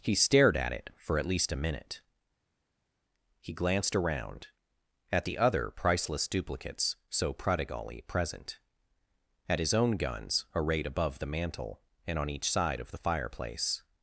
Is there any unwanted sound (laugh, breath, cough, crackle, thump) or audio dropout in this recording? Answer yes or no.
no